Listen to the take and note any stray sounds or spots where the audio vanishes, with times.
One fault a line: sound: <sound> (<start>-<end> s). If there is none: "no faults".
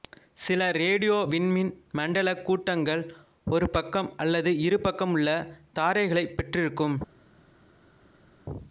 no faults